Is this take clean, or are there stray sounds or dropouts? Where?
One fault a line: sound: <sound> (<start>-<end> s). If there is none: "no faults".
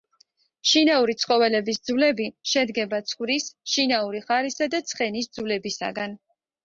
no faults